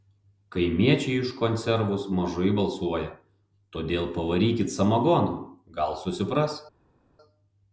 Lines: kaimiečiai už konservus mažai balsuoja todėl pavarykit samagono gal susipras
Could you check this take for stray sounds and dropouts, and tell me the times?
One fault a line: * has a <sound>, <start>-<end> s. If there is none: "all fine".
all fine